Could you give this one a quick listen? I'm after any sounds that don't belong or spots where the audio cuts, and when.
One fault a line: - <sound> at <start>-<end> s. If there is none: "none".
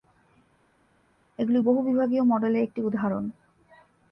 none